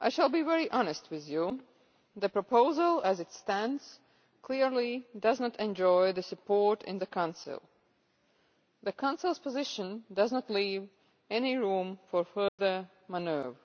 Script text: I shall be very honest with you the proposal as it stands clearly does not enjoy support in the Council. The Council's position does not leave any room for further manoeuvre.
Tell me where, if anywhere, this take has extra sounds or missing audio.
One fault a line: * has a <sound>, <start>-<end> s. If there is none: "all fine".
* has a dropout, 12.5-12.6 s